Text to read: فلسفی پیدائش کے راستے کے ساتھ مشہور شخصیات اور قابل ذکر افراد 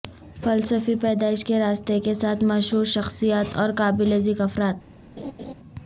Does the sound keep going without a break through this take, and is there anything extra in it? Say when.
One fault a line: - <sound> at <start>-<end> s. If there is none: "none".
- laugh at 5.2-5.5 s